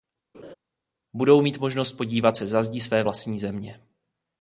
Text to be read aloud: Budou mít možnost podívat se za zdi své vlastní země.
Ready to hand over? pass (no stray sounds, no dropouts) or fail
fail